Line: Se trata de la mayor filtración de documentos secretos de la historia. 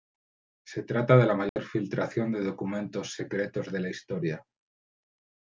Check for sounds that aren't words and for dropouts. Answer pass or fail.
fail